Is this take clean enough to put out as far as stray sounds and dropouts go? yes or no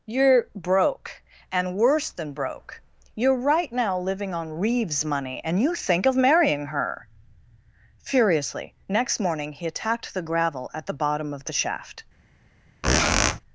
no